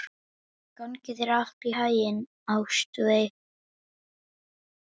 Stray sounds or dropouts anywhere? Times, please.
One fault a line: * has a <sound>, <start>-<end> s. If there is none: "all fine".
all fine